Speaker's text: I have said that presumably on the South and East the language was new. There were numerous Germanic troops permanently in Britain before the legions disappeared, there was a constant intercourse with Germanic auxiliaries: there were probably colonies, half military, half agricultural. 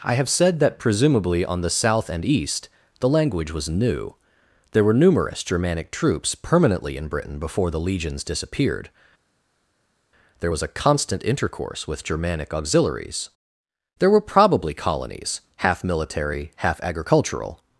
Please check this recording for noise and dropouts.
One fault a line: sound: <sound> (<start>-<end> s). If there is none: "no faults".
no faults